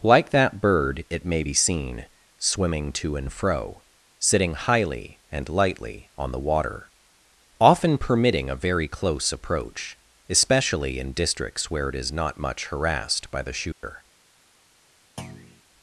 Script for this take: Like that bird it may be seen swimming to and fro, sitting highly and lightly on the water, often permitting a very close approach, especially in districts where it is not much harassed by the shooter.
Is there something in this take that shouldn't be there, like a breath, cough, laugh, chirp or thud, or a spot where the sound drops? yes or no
yes